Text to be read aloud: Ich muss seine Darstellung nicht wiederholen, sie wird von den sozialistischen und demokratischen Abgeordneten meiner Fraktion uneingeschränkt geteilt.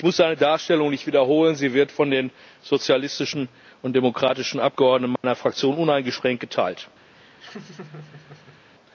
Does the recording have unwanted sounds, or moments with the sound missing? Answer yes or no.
yes